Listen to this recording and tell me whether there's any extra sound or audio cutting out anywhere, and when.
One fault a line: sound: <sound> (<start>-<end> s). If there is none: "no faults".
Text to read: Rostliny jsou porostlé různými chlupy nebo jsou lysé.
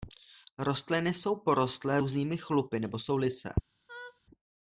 sound: laugh (3.9-4.2 s)